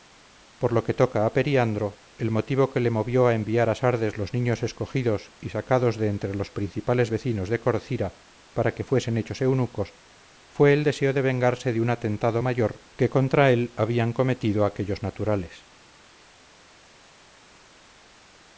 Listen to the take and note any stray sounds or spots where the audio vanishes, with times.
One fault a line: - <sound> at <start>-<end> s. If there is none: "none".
none